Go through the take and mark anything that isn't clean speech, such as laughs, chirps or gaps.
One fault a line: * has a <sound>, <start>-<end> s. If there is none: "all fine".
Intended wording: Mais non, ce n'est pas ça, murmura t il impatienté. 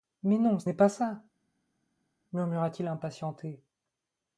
all fine